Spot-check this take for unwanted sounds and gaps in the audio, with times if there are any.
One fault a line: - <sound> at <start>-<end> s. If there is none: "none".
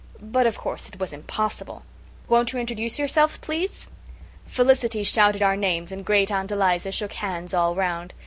none